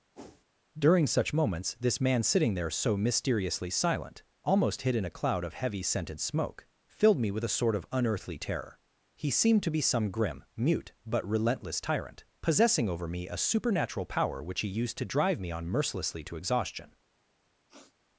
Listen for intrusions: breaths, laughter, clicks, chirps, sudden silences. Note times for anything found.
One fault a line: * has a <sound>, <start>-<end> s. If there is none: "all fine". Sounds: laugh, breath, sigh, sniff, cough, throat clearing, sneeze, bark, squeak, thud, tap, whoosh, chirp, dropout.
* has a whoosh, 0.1-0.4 s
* has a sniff, 17.7-18.0 s